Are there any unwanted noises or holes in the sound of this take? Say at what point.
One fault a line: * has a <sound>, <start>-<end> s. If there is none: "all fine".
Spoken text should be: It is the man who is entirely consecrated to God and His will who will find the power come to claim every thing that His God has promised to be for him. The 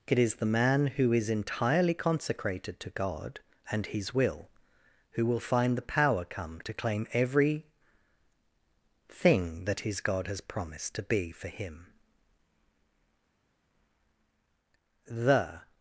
all fine